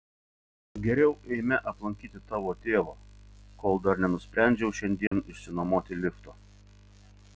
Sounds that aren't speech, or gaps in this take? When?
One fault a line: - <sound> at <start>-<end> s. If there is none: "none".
- dropout at 5.1-5.1 s